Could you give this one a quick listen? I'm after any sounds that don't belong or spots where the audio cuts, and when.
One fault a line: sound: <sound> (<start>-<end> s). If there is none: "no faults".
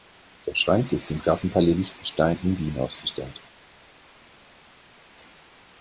no faults